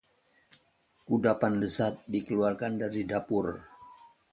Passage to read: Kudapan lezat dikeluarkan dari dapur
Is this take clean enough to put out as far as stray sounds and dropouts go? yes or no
yes